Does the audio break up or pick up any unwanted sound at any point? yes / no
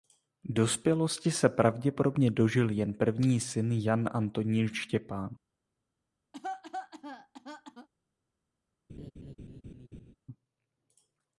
yes